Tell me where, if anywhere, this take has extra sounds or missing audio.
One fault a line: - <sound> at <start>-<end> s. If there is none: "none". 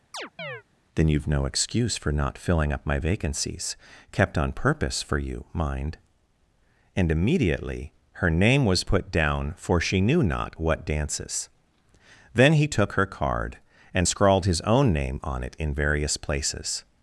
- chirp at 0.1-0.6 s